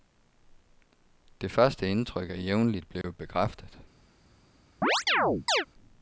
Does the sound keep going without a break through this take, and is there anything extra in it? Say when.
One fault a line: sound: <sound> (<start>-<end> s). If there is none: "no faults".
sound: dropout (3.0-3.0 s)
sound: chirp (4.8-5.7 s)